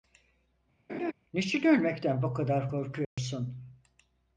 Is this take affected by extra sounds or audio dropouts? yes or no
yes